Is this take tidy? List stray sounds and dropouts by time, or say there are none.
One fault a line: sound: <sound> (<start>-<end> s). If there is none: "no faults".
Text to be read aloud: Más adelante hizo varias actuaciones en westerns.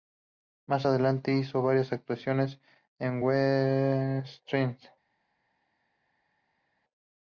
no faults